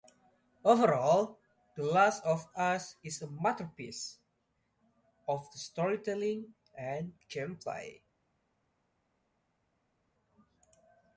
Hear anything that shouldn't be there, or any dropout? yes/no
no